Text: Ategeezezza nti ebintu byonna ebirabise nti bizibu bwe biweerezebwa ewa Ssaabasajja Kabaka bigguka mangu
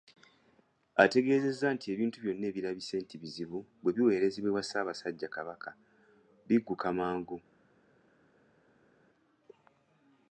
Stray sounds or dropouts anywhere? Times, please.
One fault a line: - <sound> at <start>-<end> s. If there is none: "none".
none